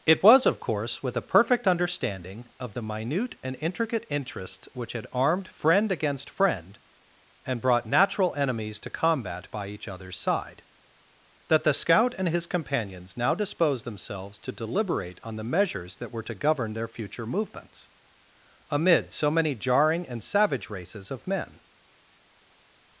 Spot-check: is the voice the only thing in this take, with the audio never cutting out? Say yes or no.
yes